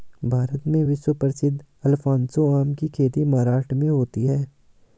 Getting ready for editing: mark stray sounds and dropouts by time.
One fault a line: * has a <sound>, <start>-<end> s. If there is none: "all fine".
all fine